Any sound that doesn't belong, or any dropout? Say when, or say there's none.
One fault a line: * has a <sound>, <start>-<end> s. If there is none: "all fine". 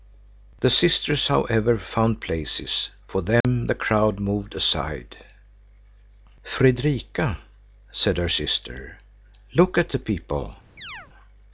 * has a dropout, 3.4-3.4 s
* has a chirp, 10.8-11.1 s